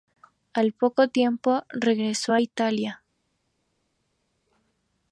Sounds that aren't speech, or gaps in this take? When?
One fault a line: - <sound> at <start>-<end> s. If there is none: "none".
none